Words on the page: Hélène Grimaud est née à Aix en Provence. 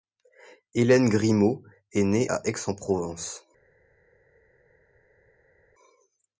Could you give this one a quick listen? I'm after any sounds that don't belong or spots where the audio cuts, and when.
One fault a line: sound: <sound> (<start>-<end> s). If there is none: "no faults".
no faults